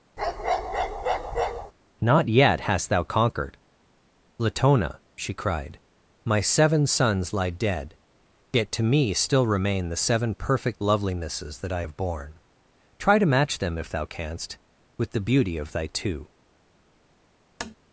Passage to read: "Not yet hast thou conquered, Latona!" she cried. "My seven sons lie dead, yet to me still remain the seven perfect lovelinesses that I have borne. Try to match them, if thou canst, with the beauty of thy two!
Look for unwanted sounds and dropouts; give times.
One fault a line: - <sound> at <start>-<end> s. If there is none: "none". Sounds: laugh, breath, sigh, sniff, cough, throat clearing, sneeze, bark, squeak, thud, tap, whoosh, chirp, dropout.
- bark at 0.2-1.7 s
- tap at 17.6-17.8 s